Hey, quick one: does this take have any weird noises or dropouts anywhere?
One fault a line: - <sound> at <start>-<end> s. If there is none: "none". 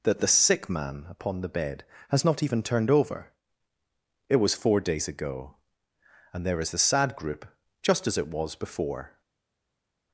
none